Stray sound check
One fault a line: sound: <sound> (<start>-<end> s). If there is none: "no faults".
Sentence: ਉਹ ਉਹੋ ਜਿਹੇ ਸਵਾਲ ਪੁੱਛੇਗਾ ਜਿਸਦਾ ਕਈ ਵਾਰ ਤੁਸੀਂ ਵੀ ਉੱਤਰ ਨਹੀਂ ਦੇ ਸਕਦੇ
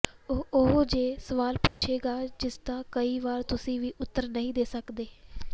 sound: dropout (1.7-1.8 s)